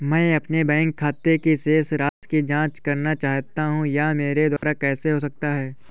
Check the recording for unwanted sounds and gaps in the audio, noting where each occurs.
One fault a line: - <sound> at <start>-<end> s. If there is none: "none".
- dropout at 2.1-2.2 s
- dropout at 4.6-4.6 s